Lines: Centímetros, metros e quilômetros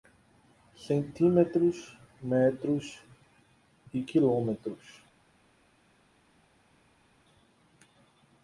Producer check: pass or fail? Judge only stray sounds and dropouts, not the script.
pass